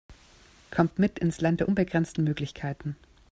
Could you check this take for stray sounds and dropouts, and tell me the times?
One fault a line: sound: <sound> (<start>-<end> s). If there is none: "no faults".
no faults